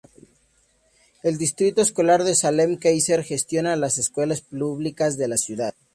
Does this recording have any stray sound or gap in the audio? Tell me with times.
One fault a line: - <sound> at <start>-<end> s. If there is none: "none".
none